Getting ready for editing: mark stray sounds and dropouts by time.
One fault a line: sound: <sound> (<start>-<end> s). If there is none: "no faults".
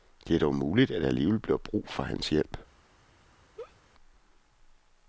sound: laugh (3.6-3.8 s)